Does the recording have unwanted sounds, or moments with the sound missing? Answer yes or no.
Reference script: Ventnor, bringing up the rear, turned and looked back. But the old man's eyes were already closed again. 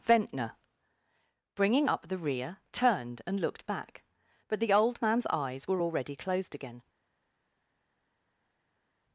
no